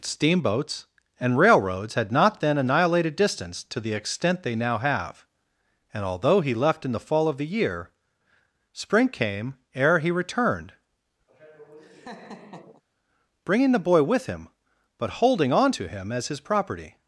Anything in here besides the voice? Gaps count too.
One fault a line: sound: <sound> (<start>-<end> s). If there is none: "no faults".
sound: laugh (11.3-12.8 s)